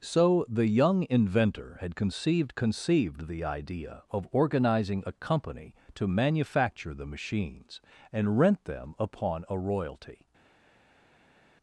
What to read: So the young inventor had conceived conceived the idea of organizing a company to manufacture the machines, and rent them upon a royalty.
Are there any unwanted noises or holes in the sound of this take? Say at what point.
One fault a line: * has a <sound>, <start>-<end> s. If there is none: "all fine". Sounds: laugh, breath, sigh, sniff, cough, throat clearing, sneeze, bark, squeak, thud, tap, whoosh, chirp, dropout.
all fine